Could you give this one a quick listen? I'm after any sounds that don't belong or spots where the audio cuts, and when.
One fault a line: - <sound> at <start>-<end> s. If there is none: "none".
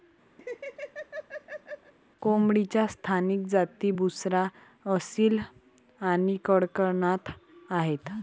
- laugh at 0.4-1.9 s